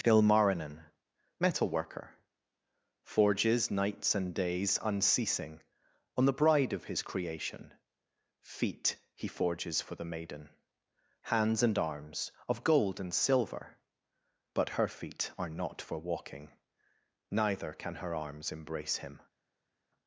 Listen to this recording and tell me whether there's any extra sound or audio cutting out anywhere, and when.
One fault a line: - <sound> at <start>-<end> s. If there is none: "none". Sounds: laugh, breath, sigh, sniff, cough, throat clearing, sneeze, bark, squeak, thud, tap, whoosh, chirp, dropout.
none